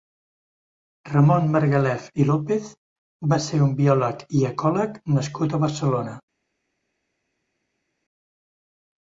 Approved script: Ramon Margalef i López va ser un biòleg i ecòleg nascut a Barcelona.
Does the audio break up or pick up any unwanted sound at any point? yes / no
no